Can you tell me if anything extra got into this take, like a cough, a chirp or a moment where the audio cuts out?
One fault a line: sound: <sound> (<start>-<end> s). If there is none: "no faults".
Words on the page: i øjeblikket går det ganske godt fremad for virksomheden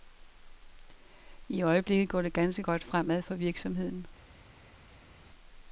no faults